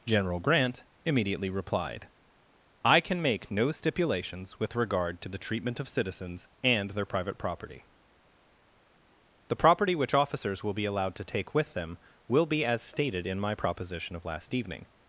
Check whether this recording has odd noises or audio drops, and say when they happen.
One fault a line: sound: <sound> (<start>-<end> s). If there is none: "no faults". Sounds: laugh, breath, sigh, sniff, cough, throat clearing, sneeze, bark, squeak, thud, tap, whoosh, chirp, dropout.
no faults